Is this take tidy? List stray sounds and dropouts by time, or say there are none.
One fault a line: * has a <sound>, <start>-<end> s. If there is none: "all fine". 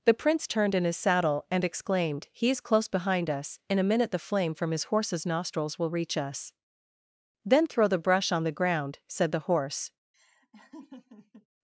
* has a laugh, 10.1-11.5 s